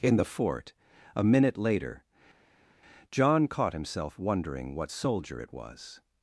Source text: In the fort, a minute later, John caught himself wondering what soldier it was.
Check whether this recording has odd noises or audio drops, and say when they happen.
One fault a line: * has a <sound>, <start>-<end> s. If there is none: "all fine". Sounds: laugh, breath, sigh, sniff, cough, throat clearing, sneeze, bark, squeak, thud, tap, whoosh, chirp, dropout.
all fine